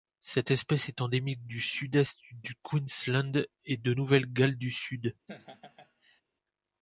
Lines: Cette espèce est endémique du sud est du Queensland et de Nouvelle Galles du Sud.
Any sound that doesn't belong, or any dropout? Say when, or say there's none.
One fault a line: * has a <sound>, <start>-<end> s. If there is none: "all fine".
* has a laugh, 5.3-6.2 s